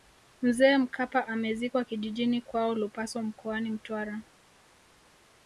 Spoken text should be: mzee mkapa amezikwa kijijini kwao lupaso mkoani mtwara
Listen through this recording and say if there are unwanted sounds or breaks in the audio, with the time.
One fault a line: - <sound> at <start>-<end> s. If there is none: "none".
none